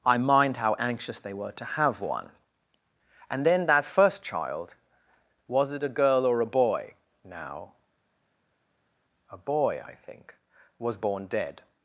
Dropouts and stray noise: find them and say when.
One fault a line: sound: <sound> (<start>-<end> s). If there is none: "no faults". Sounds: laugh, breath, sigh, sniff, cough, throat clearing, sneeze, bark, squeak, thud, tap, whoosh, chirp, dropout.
no faults